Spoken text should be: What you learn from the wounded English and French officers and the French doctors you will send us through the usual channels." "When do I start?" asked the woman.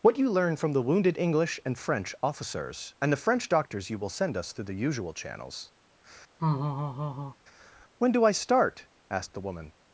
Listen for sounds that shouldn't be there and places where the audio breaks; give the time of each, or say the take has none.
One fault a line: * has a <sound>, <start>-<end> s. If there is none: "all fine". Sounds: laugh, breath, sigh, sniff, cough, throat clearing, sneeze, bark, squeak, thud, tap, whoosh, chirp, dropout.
* has a laugh, 6.4-7.4 s